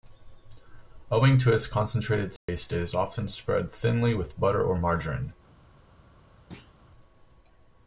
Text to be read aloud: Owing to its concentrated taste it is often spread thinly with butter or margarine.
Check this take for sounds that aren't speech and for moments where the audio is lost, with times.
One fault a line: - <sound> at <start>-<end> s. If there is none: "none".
- dropout at 2.4-2.5 s
- thud at 6.5-6.7 s